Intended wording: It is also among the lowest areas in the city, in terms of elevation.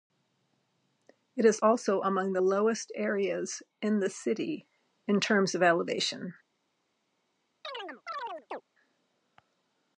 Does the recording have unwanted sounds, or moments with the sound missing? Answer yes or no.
yes